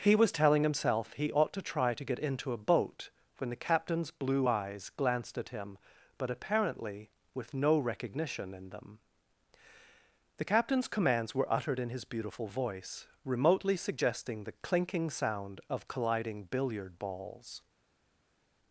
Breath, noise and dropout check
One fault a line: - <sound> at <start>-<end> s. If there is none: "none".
none